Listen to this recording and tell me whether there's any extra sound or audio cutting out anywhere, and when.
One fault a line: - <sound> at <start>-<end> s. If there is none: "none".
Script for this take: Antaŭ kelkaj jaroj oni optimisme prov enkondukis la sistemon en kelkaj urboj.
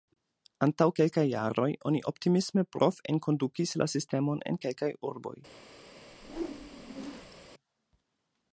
- whoosh at 6.1-7.5 s